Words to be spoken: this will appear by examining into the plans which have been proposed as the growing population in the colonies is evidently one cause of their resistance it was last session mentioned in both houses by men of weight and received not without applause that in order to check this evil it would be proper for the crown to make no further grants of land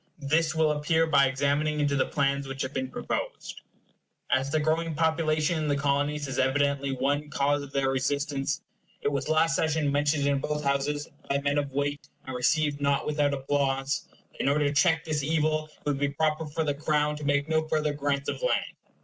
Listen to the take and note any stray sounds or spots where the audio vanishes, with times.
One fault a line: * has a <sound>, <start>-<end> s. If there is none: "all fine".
* has a dropout, 12.0-12.0 s